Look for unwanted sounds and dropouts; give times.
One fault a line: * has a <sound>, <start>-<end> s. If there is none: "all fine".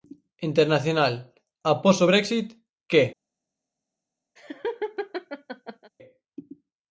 * has a laugh, 4.4-5.9 s